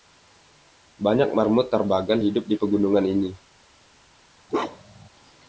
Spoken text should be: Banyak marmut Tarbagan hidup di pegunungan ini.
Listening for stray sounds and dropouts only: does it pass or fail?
fail